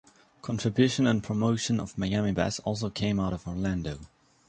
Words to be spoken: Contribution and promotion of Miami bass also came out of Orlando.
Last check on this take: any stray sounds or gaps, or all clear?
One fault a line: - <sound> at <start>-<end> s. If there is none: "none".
none